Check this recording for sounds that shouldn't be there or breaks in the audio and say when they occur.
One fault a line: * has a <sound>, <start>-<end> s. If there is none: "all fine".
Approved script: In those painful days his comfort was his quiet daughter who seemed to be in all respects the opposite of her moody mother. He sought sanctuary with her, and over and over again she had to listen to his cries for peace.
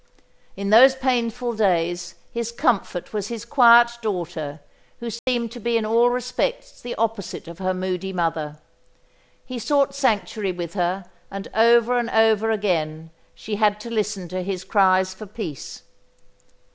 * has a dropout, 5.2-5.3 s